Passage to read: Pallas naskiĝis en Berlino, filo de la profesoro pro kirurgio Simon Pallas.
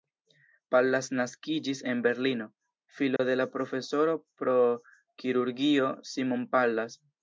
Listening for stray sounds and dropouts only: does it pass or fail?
fail